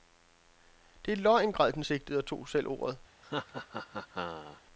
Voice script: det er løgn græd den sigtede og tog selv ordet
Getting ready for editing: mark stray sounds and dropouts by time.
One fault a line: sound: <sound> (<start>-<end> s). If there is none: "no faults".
sound: laugh (3.2-4.6 s)